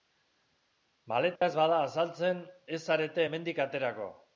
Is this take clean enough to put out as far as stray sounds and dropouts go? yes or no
no